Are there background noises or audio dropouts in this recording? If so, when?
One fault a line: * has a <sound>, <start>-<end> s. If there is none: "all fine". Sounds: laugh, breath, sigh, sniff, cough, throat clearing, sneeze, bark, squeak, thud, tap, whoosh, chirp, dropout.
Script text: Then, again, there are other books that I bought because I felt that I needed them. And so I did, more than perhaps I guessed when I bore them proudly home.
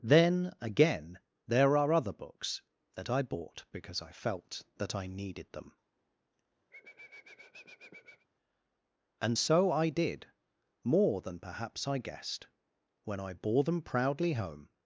* has a sniff, 6.7-8.3 s